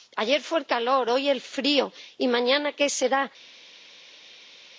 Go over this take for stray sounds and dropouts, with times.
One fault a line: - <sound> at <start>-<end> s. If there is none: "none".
none